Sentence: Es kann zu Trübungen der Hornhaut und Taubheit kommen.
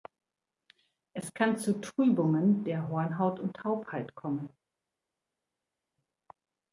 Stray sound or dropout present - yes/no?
no